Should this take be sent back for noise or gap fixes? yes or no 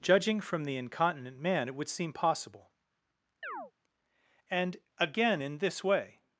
yes